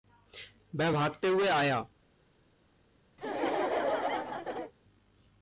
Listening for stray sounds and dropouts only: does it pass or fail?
fail